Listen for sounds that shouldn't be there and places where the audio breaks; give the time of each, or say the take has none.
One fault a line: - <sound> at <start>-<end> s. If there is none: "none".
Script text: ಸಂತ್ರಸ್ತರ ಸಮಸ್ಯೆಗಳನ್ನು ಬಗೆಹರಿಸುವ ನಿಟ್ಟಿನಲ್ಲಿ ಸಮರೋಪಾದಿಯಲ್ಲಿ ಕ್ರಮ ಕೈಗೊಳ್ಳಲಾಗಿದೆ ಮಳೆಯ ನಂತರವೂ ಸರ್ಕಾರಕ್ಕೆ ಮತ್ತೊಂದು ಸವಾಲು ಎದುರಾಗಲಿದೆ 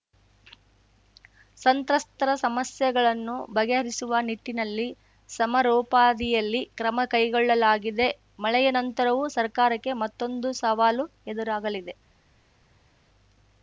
none